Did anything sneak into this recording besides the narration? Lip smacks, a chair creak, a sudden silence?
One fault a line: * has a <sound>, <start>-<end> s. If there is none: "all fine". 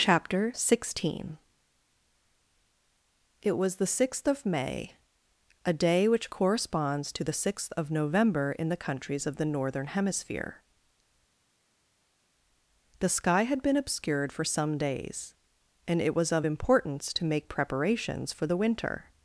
all fine